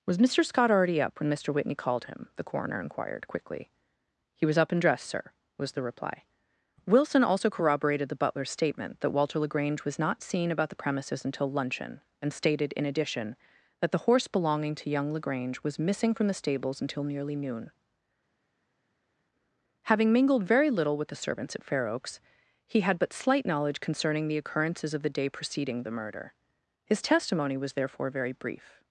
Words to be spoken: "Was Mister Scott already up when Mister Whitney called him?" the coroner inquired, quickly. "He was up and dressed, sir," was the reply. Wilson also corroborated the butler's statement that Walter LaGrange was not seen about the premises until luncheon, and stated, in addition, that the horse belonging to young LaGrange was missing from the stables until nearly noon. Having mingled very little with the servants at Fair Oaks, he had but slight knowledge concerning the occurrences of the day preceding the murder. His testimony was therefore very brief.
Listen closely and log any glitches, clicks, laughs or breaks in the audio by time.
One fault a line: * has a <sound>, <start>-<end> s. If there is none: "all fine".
all fine